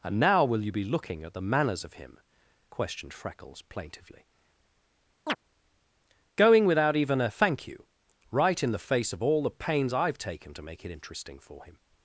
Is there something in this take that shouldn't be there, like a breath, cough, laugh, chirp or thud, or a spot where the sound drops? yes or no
yes